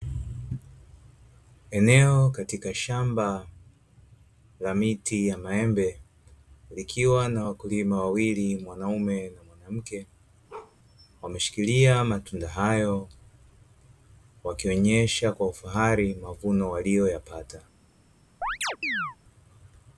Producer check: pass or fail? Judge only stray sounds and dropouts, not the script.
fail